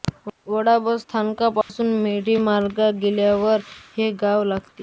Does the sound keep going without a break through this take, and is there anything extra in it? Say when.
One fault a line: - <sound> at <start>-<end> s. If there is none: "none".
- dropout at 1.6-1.7 s